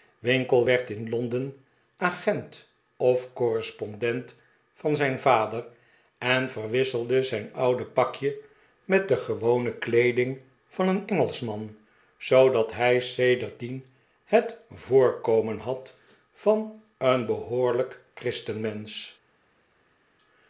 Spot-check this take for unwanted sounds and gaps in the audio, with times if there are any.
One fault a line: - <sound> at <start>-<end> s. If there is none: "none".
none